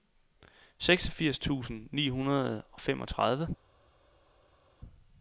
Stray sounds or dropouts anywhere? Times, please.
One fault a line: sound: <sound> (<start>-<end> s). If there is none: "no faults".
no faults